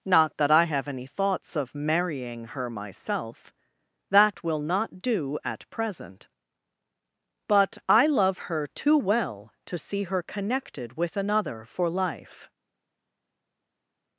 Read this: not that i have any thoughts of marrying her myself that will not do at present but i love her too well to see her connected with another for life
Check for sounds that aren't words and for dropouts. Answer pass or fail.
pass